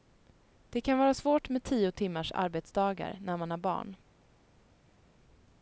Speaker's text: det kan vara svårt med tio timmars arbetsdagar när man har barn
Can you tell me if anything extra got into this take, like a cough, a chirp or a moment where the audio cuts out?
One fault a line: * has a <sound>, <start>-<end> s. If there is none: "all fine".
all fine